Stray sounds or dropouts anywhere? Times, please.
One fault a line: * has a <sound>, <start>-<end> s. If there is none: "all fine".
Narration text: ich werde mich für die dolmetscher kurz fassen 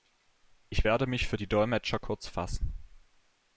all fine